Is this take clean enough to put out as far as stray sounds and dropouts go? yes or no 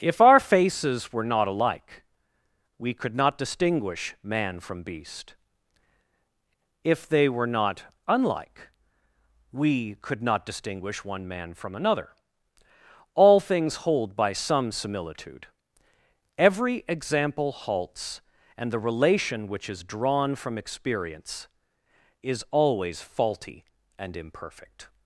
yes